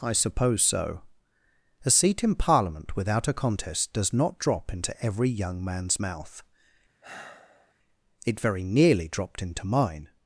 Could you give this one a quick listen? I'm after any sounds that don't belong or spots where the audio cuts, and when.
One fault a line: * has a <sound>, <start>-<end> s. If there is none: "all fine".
* has a sigh, 7.0-7.7 s